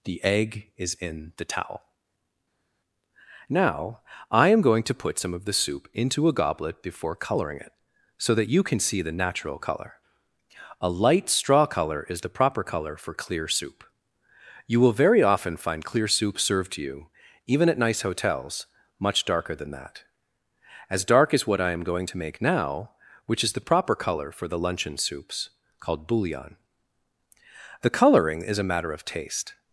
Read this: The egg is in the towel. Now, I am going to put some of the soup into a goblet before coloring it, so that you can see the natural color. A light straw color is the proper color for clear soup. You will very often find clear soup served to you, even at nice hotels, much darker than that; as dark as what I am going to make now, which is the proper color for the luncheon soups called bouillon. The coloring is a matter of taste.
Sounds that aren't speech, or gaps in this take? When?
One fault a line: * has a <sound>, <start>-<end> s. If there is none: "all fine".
all fine